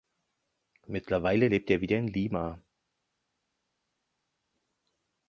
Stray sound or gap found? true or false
false